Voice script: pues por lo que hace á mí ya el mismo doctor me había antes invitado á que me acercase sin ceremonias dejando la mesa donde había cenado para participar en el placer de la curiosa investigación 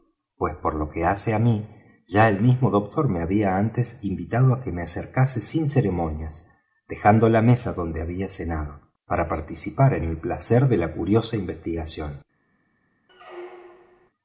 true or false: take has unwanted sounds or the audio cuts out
true